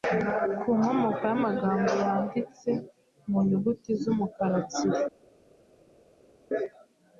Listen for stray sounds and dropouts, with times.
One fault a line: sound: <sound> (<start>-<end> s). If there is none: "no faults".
no faults